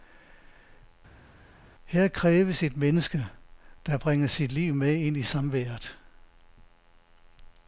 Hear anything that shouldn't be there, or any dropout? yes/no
no